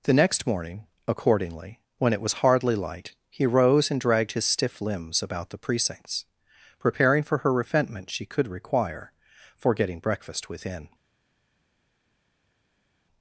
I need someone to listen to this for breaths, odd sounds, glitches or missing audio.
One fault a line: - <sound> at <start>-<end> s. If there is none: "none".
none